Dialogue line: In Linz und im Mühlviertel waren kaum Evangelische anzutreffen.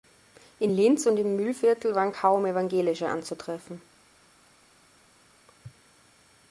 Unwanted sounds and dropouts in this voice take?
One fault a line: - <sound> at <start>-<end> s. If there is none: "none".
none